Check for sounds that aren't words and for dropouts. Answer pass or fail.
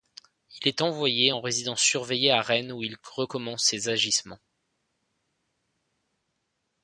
pass